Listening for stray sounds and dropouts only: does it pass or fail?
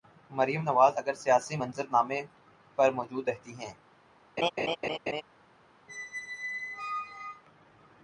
fail